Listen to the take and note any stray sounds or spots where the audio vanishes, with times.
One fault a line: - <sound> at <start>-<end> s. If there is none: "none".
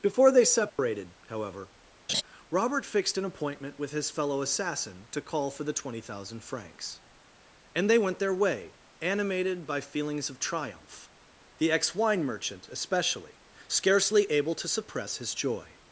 - dropout at 0.7-0.8 s
- laugh at 2.1-2.2 s